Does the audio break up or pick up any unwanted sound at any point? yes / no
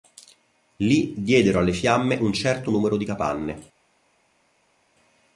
no